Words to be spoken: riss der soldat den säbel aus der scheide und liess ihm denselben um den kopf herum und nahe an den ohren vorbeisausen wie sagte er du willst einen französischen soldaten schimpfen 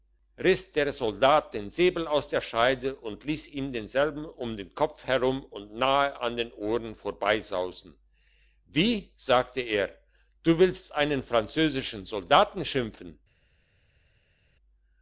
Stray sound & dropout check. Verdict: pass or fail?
pass